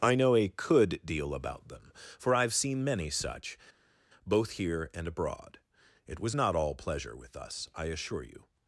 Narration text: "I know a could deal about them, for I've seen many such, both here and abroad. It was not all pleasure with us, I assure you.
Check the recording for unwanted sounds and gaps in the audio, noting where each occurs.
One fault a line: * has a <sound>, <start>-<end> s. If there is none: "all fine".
all fine